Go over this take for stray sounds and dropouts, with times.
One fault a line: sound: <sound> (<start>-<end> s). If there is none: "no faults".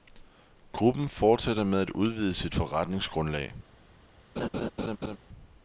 sound: laugh (4.4-5.2 s)